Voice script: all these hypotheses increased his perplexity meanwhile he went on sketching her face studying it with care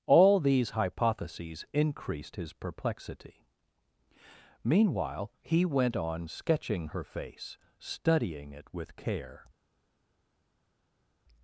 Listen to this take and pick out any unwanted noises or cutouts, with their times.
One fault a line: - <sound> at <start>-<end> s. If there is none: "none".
none